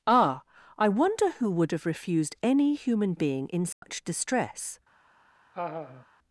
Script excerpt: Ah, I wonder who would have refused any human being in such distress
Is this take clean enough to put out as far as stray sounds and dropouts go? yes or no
no